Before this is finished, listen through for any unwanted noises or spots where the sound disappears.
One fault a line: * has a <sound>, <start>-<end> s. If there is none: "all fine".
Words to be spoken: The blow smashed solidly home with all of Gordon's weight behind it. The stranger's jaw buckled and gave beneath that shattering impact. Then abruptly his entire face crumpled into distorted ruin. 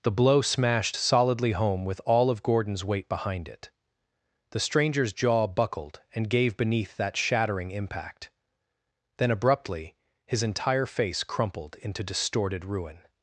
all fine